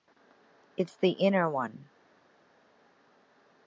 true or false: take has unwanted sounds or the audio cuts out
false